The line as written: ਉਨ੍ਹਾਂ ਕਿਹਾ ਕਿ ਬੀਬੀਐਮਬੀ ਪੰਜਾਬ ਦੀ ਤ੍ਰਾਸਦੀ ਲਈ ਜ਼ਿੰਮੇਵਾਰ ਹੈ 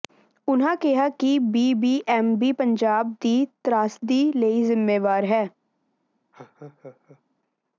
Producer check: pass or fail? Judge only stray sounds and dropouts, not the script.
fail